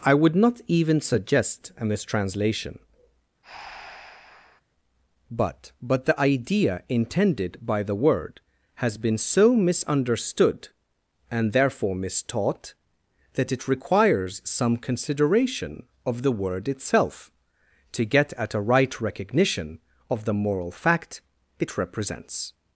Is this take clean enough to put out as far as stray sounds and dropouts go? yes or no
no